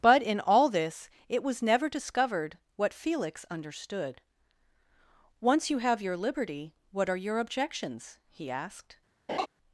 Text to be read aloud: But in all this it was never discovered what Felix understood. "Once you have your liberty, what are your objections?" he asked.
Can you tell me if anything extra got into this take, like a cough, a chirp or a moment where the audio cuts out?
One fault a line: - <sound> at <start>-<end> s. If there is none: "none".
- laugh at 9.3-9.5 s